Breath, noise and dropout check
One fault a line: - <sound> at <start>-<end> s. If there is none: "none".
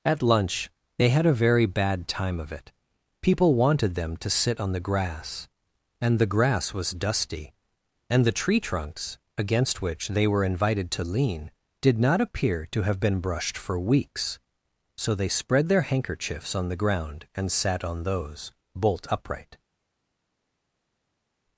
none